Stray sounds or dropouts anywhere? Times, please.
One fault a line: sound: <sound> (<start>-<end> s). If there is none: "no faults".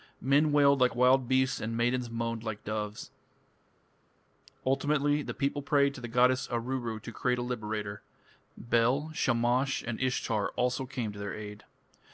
no faults